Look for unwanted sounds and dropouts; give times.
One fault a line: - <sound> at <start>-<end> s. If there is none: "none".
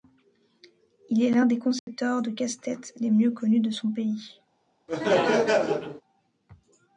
- dropout at 1.8-1.9 s
- laugh at 4.9-6.0 s